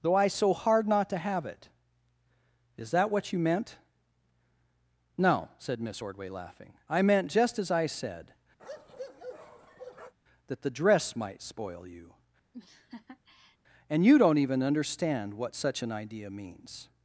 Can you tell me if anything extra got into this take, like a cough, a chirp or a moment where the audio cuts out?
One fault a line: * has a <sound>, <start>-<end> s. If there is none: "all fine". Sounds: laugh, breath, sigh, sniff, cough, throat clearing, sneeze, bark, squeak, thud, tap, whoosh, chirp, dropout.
* has a bark, 8.6-10.1 s
* has a laugh, 12.5-13.6 s